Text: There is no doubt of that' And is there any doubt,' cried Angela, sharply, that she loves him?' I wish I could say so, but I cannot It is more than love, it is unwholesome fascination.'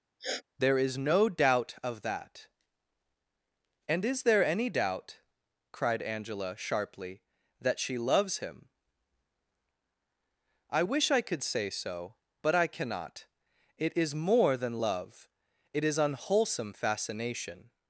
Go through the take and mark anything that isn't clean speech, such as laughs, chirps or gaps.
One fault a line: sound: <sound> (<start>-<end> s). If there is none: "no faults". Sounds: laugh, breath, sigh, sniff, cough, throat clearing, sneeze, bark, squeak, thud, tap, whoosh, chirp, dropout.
sound: sniff (0.2-0.4 s)